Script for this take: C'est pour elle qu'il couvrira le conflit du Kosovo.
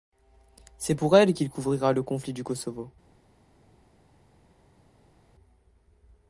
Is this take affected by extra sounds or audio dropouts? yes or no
no